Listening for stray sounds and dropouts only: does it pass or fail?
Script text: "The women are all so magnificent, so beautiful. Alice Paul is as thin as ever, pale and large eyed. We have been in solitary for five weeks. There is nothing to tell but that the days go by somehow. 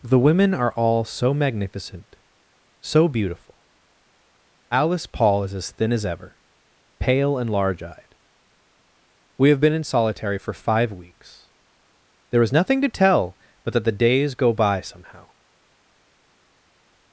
pass